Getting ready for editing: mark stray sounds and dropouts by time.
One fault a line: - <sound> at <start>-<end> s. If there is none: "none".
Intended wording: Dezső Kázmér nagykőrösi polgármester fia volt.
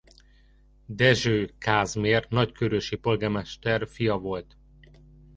none